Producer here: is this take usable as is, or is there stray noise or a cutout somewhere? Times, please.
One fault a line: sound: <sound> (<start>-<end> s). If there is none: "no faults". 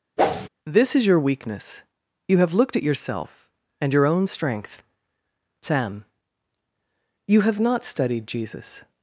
sound: whoosh (0.2-0.5 s)